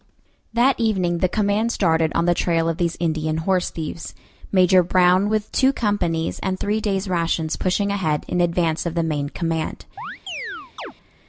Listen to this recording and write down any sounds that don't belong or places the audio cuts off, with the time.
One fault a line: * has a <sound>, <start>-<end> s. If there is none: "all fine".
* has a chirp, 10.0-10.9 s